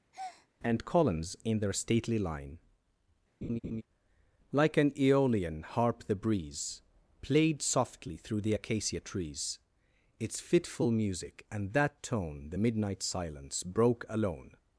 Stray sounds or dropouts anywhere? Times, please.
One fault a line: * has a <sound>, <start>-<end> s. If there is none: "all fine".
* has a breath, 0.1-0.5 s
* has a laugh, 3.4-3.8 s